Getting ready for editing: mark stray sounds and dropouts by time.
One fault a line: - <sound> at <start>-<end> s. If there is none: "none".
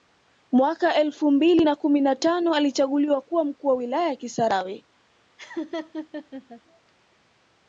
- laugh at 5.4-6.6 s